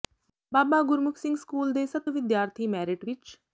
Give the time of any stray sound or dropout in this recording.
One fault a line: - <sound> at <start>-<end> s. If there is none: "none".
none